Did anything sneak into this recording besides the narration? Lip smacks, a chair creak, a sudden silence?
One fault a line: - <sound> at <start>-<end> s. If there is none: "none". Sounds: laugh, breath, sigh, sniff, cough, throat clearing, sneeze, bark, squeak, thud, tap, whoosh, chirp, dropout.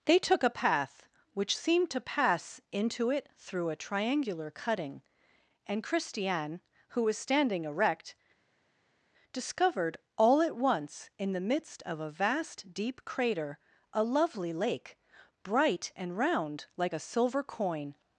none